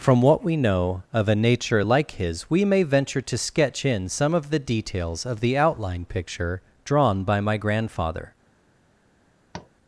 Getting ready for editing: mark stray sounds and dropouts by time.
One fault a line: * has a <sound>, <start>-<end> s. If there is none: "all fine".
* has a tap, 9.5-9.7 s